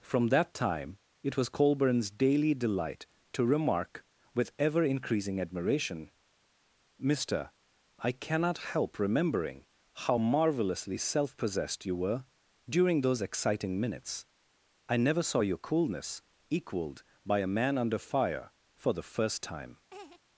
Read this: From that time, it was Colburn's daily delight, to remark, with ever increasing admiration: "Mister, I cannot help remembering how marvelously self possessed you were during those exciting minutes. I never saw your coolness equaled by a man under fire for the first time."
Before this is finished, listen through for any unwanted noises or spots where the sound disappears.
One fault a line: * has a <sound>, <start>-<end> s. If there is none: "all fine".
* has a laugh, 19.9-20.2 s